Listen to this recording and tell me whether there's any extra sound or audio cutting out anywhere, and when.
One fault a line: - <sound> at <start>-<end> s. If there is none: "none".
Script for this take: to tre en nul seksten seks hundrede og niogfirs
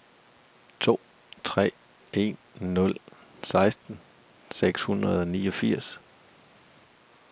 none